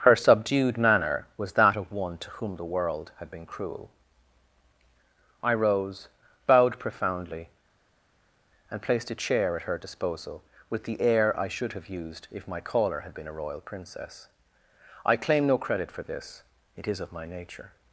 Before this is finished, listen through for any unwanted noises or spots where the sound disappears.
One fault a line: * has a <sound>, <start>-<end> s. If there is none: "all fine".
all fine